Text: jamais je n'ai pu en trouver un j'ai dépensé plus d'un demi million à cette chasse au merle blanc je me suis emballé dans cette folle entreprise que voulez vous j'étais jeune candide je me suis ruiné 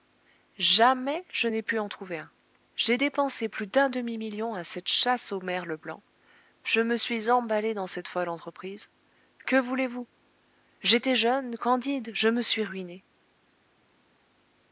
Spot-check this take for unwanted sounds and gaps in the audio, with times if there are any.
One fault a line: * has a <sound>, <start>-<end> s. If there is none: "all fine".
all fine